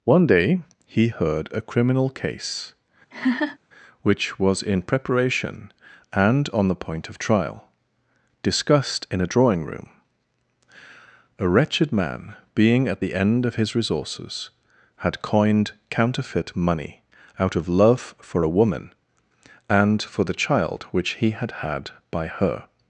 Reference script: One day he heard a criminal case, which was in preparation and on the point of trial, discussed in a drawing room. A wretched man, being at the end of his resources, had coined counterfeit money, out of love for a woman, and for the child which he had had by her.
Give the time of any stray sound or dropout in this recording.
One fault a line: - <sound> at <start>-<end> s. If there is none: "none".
- laugh at 3.1-3.6 s